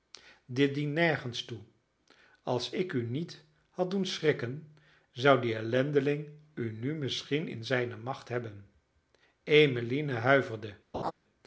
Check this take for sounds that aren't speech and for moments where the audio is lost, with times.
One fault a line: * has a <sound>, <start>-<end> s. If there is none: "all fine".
* has a laugh, 10.9-11.1 s